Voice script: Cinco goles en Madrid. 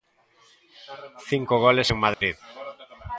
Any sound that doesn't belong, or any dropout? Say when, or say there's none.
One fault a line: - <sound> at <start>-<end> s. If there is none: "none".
- dropout at 2.1-2.2 s